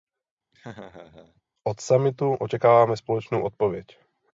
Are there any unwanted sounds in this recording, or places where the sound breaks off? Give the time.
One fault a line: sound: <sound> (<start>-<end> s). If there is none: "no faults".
sound: laugh (0.5-1.4 s)